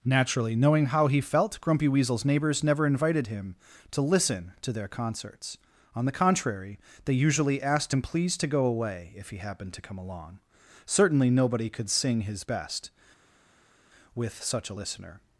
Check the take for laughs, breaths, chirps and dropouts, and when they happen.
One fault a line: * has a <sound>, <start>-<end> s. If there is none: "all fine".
all fine